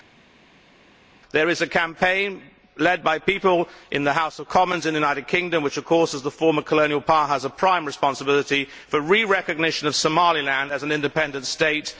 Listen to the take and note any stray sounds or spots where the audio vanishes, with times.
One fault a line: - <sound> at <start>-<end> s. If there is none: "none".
none